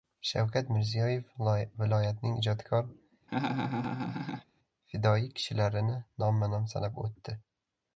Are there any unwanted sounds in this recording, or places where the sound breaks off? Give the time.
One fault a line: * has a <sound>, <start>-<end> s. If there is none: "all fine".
* has a laugh, 3.3-4.4 s